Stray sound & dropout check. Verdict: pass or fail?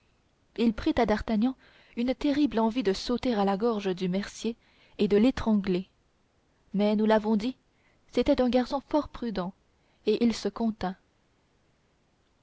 pass